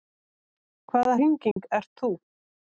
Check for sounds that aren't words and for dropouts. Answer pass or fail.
fail